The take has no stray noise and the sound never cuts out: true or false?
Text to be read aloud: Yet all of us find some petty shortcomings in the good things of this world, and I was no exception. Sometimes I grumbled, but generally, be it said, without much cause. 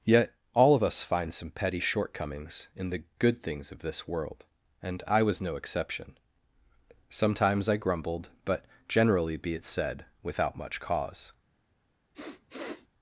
false